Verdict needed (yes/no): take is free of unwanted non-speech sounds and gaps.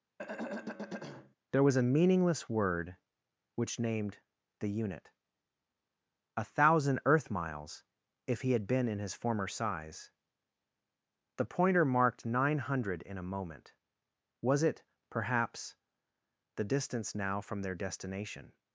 no